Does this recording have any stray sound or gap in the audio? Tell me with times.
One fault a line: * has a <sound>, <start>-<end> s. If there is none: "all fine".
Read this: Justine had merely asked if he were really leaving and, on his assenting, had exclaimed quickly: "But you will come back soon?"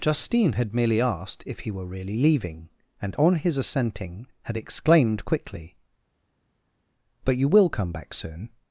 all fine